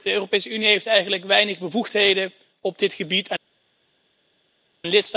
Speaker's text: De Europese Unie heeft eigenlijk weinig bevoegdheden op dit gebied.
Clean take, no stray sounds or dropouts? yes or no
yes